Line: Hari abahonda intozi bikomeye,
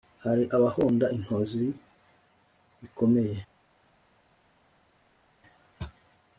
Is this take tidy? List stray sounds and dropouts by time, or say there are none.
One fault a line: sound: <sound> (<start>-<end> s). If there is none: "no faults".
no faults